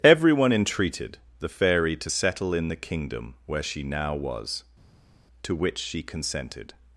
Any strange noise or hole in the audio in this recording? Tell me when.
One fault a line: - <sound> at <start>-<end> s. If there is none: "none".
none